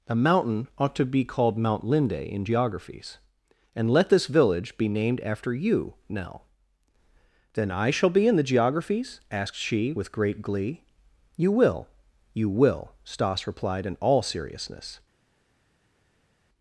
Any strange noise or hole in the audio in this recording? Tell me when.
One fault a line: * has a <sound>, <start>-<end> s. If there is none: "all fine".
all fine